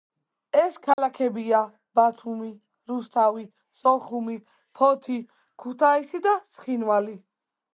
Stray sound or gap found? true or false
true